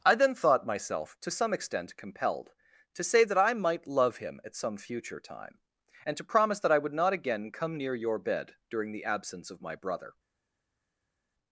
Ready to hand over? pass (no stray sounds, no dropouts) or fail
pass